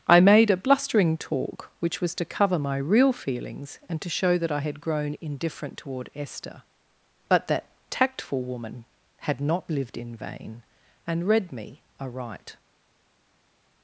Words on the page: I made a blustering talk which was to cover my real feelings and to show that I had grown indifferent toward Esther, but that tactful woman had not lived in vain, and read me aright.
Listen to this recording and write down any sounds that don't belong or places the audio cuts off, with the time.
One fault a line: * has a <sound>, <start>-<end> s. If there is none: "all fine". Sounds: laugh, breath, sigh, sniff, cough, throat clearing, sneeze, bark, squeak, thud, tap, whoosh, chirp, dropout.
all fine